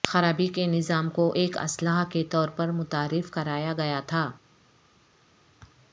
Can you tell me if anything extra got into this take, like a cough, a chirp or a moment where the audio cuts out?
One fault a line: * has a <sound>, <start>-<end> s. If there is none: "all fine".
all fine